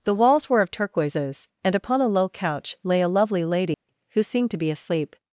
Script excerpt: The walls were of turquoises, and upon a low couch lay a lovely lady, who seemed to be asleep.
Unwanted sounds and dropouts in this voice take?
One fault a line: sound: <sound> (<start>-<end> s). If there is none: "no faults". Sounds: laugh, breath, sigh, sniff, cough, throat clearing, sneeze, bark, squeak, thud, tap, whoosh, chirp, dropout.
sound: dropout (3.7-3.9 s)